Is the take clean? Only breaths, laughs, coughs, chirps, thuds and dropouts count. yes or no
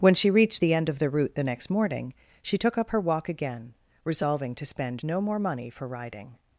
yes